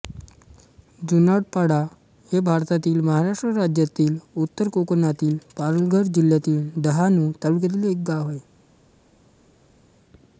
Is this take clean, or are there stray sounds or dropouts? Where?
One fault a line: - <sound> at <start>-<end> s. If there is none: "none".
none